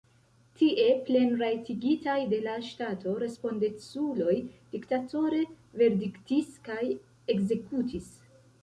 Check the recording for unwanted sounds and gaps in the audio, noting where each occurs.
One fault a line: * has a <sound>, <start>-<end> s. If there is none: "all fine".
all fine